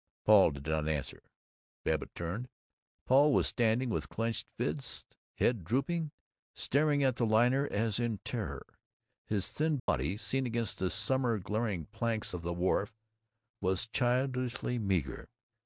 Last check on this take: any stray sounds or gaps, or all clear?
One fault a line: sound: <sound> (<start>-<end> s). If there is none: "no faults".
sound: dropout (9.8-9.9 s)